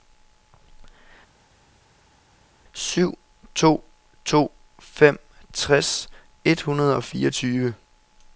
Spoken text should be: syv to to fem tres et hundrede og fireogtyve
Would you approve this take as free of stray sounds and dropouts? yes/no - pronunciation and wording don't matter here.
yes